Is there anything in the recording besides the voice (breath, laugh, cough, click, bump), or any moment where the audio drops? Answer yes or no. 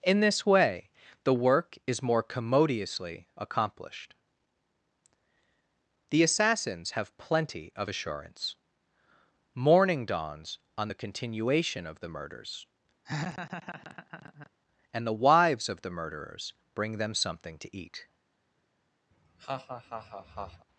yes